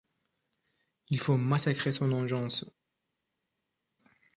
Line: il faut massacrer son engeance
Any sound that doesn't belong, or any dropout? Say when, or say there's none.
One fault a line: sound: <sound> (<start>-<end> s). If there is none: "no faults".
no faults